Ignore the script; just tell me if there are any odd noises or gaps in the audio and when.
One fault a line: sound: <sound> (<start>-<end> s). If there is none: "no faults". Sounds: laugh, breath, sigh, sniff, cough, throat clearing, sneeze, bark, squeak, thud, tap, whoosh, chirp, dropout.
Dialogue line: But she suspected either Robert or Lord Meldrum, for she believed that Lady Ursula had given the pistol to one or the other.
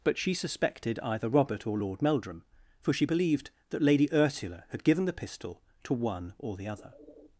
no faults